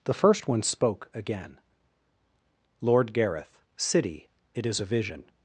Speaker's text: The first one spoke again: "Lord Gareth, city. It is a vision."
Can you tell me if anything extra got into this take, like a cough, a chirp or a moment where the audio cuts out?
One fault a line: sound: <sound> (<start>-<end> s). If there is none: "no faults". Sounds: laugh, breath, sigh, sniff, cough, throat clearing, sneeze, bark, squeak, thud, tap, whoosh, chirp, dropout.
no faults